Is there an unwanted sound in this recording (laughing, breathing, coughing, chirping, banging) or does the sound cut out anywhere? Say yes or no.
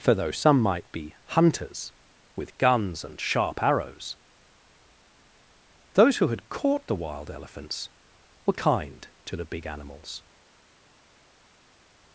no